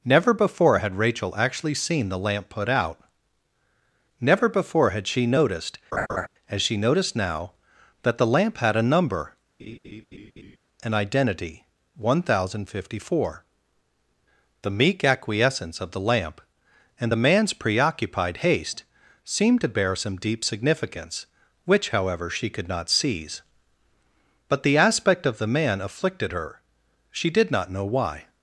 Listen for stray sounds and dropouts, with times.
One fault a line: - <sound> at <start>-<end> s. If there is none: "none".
- laugh at 5.9-6.3 s
- laugh at 9.6-10.6 s